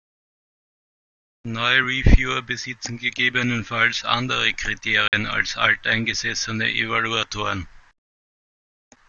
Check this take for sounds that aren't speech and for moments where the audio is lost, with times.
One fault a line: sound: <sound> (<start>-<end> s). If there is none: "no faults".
sound: dropout (5.1-5.1 s)